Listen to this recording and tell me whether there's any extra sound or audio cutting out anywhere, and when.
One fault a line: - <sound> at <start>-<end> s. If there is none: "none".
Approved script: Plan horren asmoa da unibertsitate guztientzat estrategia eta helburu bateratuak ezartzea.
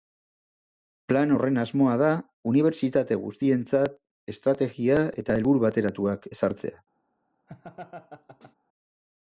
- laugh at 7.5-8.5 s